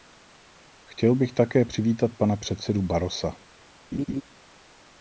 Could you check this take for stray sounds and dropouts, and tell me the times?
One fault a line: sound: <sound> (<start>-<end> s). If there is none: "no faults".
sound: laugh (3.9-4.2 s)